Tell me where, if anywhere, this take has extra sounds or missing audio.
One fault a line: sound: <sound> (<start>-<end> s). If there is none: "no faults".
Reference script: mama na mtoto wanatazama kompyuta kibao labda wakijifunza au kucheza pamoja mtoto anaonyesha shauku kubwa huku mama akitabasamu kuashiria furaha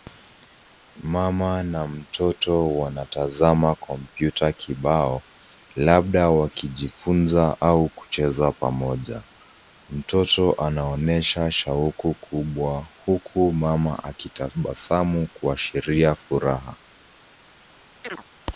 sound: chirp (18.0-18.2 s)